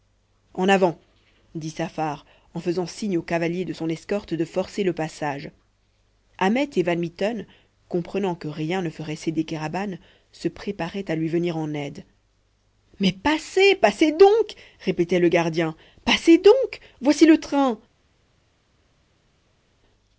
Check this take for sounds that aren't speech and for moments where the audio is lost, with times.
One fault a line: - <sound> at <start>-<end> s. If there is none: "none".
none